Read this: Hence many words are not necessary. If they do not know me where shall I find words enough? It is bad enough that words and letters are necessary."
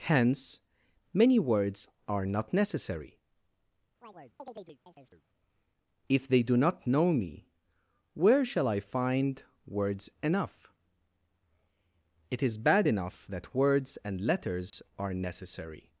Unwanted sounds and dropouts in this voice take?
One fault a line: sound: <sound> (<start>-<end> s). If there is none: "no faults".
sound: chirp (4.0-5.2 s)
sound: dropout (14.7-14.7 s)